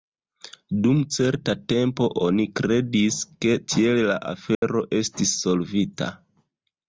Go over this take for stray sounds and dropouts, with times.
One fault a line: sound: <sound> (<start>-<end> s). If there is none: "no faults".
sound: dropout (4.5-4.6 s)